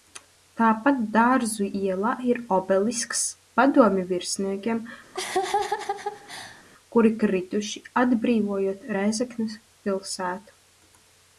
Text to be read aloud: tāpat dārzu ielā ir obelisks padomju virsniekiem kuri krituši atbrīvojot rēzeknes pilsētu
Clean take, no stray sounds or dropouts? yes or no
no